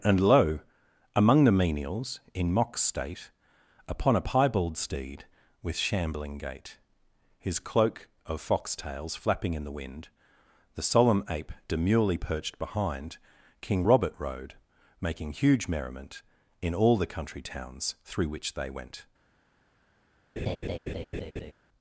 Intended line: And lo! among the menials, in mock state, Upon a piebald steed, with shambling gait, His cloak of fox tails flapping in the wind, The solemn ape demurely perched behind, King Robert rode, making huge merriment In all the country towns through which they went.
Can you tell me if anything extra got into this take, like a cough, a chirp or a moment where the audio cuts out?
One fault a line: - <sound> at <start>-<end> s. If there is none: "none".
- laugh at 20.4-21.5 s